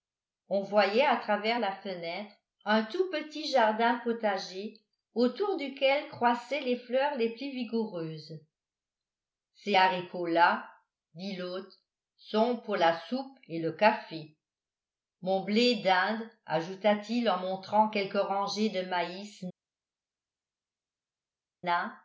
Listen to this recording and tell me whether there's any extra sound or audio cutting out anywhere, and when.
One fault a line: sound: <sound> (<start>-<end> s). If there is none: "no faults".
no faults